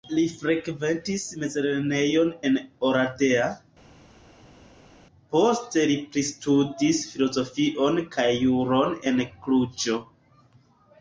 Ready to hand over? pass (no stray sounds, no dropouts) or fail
pass